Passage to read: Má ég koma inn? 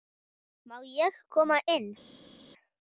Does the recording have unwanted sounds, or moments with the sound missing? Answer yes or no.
no